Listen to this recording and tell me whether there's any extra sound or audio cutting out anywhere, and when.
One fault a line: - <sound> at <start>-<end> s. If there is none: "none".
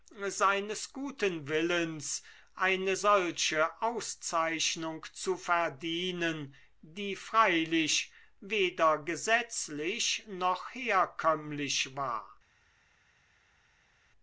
none